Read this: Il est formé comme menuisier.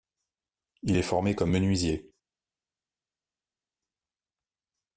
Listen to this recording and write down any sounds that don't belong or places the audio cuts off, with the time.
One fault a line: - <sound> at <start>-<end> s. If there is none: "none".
none